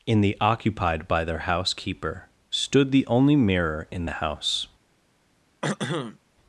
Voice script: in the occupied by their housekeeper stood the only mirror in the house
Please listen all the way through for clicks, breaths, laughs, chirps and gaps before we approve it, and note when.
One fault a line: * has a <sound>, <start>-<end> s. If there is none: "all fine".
* has a throat clearing, 5.6-6.2 s